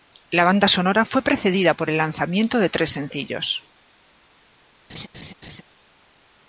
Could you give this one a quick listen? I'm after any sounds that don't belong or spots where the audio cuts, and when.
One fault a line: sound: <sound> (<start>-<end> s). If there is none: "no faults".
sound: laugh (4.9-5.6 s)